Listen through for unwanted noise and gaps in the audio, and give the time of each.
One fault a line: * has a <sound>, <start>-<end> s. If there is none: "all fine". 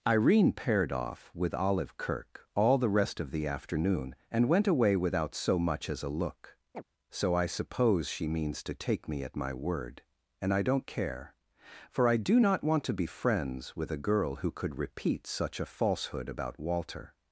* has a chirp, 6.7-6.8 s